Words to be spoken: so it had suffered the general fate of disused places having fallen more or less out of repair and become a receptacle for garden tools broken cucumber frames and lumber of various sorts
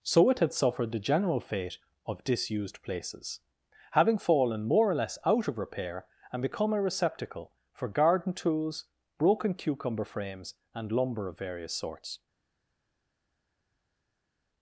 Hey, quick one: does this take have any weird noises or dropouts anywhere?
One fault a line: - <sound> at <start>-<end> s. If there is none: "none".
none